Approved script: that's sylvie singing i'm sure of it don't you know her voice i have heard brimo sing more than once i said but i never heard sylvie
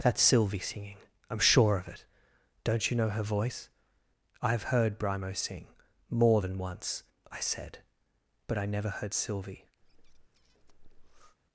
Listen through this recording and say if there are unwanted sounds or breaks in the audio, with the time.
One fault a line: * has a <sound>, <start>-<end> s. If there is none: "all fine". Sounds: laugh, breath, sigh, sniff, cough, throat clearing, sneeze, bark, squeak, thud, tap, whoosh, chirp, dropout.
* has a breath, 9.8-11.4 s